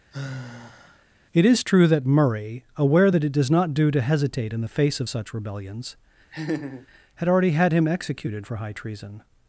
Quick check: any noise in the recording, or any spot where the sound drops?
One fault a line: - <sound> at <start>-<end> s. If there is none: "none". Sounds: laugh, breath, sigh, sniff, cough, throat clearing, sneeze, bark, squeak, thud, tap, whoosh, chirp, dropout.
- sigh at 0.1-1.1 s
- laugh at 6.3-6.9 s